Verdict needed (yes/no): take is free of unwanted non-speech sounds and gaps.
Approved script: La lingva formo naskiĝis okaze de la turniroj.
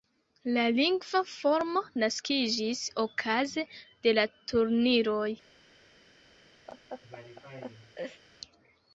no